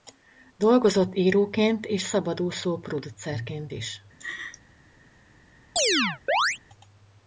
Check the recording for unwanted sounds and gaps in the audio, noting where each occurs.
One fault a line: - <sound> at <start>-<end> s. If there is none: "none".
- laugh at 4.2-4.6 s
- chirp at 5.8-6.6 s